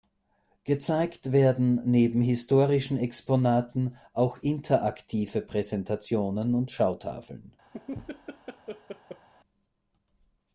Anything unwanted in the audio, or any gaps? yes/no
yes